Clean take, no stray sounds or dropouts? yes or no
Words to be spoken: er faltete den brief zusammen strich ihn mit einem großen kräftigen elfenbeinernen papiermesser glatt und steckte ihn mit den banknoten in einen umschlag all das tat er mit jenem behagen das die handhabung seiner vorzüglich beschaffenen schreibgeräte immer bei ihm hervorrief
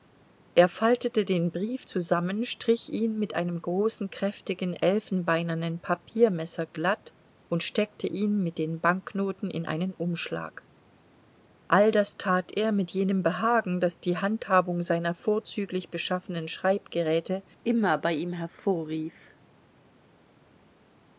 yes